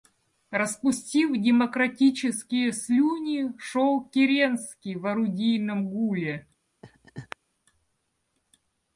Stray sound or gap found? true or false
true